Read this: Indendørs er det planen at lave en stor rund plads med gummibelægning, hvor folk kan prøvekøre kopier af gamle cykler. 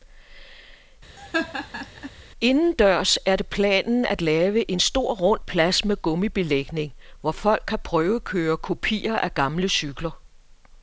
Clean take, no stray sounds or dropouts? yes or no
no